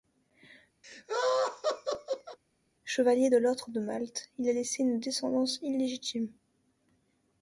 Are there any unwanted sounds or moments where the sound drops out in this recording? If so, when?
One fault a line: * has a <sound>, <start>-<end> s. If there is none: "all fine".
* has a laugh, 0.8-2.4 s